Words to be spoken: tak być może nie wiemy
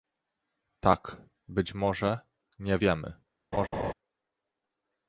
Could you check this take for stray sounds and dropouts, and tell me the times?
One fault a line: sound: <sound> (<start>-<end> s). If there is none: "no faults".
sound: laugh (3.5-3.9 s)